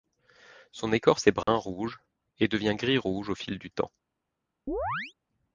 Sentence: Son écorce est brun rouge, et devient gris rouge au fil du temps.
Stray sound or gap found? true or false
true